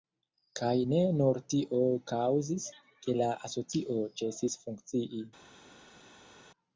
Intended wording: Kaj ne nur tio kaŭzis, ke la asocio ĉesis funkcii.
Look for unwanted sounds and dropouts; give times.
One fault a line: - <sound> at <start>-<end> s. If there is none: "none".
none